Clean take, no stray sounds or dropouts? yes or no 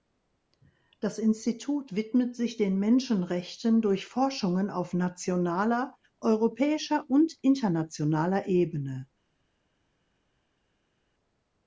yes